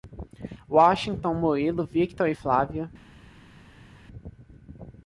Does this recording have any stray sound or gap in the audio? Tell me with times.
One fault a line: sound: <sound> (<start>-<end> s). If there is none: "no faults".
no faults